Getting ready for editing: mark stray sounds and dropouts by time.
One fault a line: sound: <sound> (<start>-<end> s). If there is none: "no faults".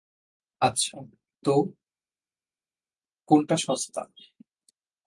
no faults